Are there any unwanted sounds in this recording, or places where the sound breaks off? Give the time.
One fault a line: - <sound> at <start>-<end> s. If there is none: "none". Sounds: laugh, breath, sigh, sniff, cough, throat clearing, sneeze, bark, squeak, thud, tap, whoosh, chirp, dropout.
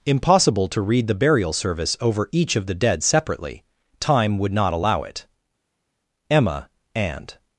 none